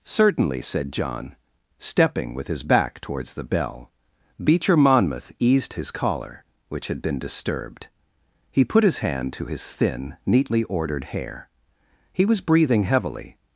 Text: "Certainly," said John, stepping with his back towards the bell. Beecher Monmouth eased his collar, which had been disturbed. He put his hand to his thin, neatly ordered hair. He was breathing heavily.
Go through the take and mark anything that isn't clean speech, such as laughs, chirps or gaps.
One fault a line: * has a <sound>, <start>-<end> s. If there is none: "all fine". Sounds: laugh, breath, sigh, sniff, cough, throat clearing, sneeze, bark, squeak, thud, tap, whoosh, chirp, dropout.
all fine